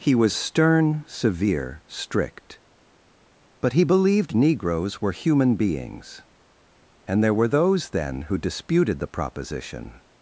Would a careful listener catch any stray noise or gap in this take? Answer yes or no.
no